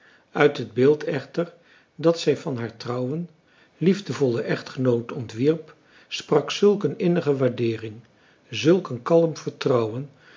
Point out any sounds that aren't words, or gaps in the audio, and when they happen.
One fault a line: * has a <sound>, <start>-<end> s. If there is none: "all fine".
all fine